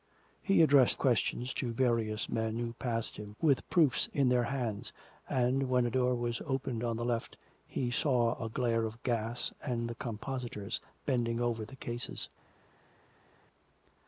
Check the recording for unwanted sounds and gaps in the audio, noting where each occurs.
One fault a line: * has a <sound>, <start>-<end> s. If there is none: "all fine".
all fine